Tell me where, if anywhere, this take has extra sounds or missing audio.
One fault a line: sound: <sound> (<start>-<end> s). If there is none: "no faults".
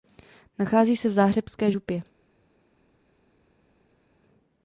no faults